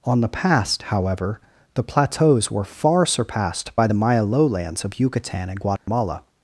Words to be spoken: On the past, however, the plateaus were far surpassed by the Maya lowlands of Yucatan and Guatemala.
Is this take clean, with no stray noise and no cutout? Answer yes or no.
no